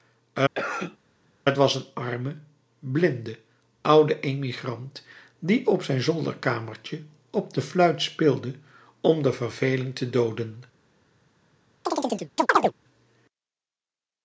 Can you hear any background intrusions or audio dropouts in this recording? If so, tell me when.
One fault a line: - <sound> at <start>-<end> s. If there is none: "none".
- cough at 0.5-1.0 s
- chirp at 11.9-12.7 s